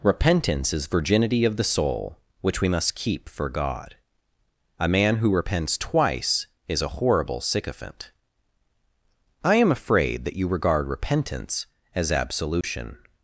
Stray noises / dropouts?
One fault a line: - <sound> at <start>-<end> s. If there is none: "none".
- dropout at 12.6-12.6 s